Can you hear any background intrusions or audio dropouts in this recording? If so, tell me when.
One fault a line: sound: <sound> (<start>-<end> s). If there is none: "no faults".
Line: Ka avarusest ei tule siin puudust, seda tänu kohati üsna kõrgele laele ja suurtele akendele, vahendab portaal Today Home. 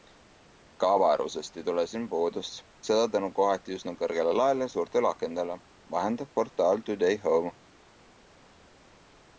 no faults